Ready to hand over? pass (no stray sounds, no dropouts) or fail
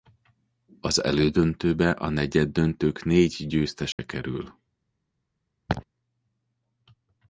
fail